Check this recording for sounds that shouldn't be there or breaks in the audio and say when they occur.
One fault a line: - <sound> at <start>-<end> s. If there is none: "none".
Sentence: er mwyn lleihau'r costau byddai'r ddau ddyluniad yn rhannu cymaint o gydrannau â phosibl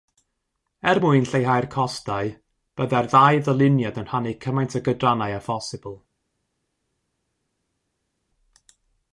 none